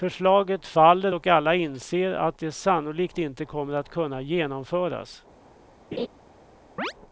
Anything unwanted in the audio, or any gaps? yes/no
yes